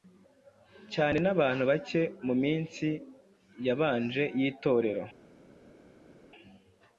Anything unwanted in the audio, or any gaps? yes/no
no